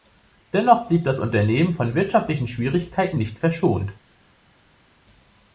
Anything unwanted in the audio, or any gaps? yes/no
no